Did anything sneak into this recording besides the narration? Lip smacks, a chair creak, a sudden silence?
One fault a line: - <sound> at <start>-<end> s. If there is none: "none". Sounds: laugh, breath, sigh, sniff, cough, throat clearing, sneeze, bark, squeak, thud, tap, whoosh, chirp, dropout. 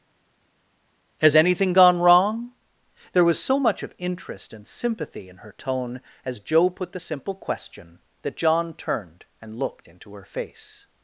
none